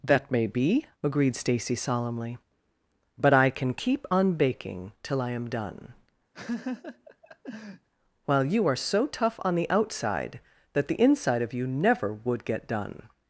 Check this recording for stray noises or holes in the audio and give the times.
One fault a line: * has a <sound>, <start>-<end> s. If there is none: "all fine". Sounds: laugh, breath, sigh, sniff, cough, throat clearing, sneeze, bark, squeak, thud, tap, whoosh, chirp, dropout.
* has a laugh, 6.3-7.9 s